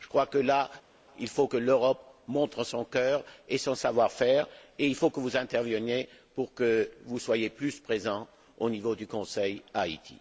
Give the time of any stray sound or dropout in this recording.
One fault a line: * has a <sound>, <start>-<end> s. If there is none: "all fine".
all fine